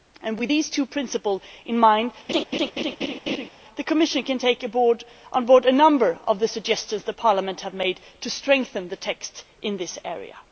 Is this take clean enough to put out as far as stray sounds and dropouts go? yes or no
no